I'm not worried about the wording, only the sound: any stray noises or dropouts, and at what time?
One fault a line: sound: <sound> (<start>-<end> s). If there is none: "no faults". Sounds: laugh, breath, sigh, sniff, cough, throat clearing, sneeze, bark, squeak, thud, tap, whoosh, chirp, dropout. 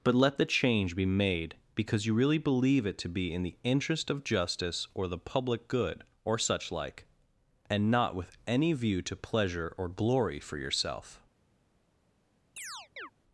sound: chirp (12.6-13.1 s)